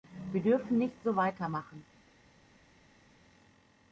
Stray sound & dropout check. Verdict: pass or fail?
pass